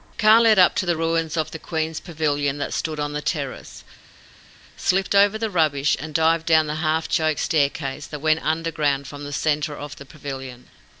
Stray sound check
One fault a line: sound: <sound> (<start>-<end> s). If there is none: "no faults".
no faults